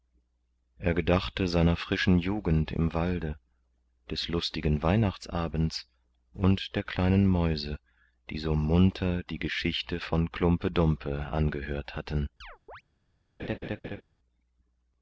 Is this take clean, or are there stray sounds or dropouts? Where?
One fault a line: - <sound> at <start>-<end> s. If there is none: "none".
- chirp at 12.4-12.8 s
- laugh at 13.4-14.0 s